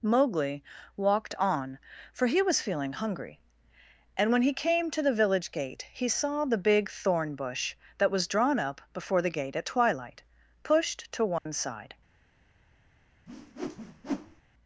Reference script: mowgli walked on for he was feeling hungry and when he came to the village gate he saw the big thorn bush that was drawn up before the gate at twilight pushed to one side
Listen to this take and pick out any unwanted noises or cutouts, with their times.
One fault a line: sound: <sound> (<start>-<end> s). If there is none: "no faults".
sound: dropout (11.4-11.5 s)
sound: whoosh (13.3-14.4 s)